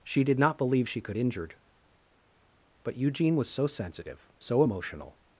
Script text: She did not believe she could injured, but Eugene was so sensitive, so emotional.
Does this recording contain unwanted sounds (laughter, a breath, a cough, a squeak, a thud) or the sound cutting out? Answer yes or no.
no